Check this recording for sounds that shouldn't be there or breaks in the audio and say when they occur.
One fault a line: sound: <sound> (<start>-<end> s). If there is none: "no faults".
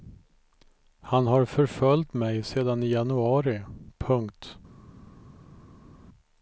no faults